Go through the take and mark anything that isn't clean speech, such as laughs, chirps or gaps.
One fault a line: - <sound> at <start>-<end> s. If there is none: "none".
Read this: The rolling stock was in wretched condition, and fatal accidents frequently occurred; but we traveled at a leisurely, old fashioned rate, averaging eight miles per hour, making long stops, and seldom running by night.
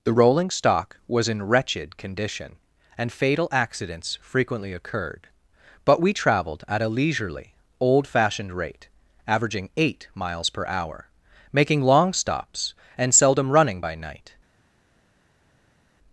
none